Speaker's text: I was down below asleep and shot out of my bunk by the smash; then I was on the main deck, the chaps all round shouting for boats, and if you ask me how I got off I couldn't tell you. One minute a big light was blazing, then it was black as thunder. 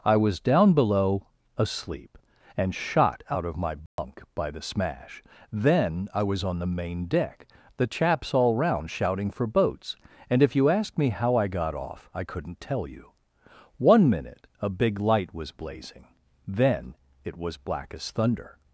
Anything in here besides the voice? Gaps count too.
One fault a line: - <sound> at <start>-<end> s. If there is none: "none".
- dropout at 3.9-4.0 s